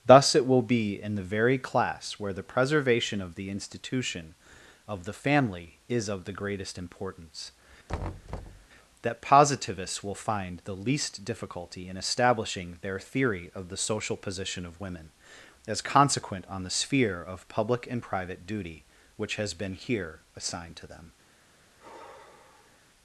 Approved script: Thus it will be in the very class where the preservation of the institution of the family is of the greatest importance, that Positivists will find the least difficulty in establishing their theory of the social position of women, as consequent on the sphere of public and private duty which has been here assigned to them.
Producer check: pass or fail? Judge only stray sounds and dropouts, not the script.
fail